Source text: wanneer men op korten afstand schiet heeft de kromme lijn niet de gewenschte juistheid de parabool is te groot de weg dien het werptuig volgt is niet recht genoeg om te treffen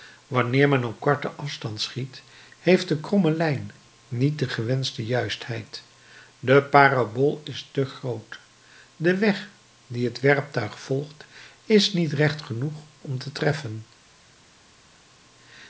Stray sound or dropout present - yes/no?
no